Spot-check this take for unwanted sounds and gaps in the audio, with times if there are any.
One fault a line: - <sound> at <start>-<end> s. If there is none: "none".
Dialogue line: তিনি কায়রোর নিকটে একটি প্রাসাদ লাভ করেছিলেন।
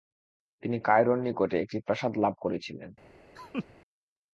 - laugh at 3.4-3.7 s